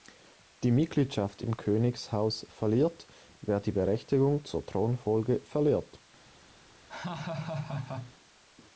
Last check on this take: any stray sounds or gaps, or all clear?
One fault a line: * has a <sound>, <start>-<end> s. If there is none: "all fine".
* has a laugh, 6.9-8.1 s